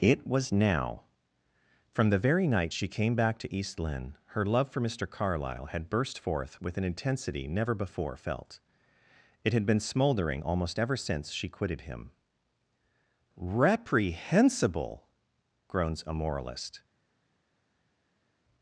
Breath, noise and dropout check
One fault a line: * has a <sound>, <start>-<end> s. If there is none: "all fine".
all fine